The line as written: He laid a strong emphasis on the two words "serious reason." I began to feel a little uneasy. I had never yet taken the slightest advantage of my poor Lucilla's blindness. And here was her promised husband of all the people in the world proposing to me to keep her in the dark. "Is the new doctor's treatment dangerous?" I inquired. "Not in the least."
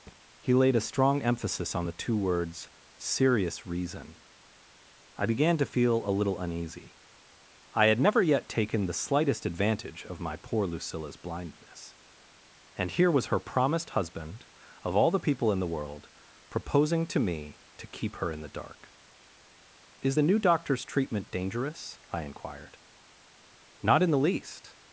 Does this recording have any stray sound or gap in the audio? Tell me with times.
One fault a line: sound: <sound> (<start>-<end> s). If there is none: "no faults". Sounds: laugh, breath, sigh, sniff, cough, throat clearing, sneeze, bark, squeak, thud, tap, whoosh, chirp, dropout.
sound: thud (0.1-0.2 s)